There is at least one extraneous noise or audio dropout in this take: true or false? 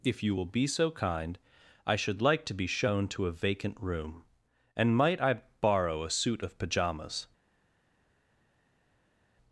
false